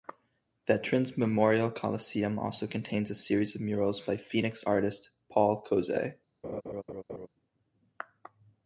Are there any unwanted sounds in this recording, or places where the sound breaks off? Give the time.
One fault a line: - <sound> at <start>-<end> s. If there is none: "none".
- laugh at 6.4-7.3 s